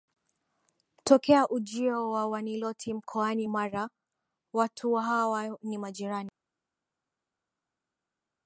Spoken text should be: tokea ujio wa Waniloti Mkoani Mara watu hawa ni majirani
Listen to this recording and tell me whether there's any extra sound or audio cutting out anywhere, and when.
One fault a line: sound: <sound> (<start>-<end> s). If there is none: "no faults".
no faults